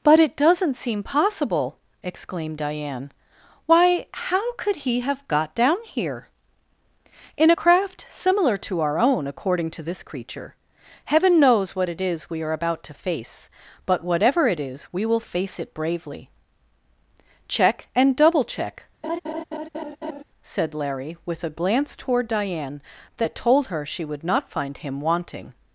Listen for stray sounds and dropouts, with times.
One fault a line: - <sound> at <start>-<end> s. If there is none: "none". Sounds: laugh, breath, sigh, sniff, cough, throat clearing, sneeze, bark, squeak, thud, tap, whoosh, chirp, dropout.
- laugh at 19.0-20.2 s